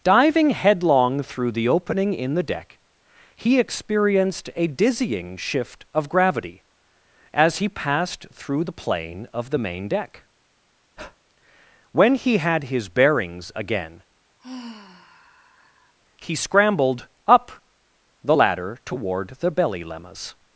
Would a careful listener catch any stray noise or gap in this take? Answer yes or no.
yes